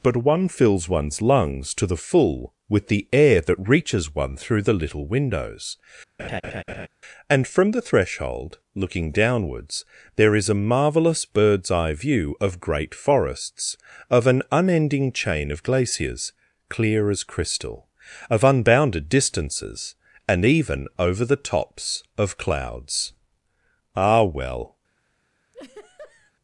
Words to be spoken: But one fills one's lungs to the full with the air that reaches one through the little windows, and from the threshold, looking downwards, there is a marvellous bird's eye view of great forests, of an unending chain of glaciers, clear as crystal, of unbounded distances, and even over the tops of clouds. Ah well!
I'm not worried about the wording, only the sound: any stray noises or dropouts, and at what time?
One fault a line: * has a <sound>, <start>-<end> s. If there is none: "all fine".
* has a laugh, 6.2-6.9 s
* has a laugh, 25.5-26.3 s